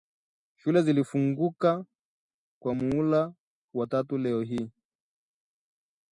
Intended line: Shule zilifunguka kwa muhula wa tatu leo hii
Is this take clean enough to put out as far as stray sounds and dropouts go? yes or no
yes